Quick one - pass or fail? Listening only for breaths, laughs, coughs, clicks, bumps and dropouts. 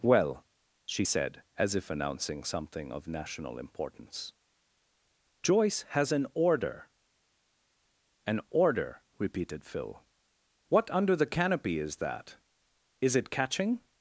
pass